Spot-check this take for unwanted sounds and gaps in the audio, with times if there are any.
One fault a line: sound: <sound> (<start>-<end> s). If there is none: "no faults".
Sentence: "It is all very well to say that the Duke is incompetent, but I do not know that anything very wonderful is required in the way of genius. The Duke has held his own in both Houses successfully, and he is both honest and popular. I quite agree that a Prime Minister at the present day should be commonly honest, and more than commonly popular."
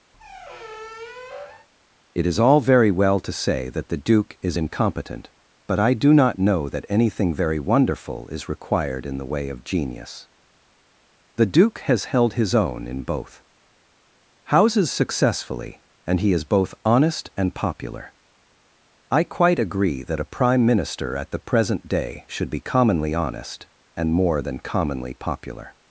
sound: squeak (0.1-1.7 s)